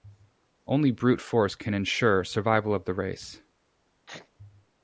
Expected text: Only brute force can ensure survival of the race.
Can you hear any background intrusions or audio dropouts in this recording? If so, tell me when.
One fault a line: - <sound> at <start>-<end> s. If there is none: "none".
- sneeze at 4.1-4.3 s